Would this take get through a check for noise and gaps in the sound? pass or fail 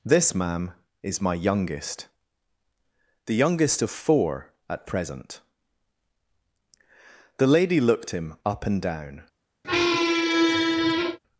fail